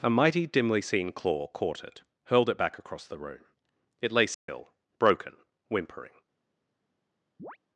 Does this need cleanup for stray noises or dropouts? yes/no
yes